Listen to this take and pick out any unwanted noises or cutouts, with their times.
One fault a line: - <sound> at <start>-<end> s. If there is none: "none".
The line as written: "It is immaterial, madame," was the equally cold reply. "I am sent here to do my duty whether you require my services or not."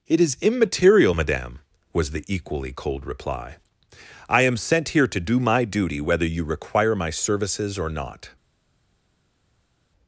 none